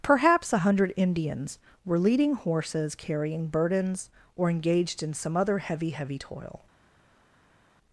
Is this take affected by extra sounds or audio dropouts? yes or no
no